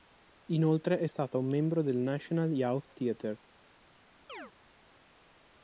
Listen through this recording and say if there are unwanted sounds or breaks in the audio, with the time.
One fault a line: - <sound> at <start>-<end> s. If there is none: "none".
- chirp at 4.3-4.5 s